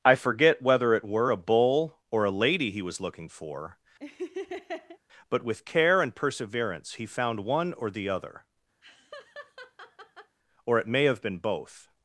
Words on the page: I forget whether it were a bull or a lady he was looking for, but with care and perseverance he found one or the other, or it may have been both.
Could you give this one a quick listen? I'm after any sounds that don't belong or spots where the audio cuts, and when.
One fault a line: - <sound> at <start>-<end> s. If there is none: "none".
- laugh at 4.0-5.0 s
- laugh at 8.8-10.4 s